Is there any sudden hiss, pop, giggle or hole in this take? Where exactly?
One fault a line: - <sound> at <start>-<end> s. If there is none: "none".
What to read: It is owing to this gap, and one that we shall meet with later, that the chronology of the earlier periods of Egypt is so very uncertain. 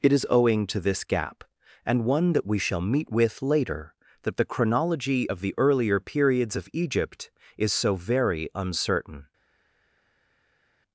none